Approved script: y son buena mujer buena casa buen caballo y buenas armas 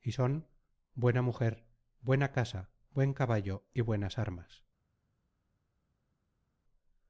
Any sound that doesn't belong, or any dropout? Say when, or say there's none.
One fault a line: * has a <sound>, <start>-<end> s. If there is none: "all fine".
all fine